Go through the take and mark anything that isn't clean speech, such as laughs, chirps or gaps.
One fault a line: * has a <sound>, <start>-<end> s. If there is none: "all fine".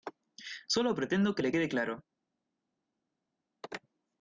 all fine